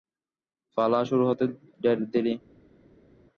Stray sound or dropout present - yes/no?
no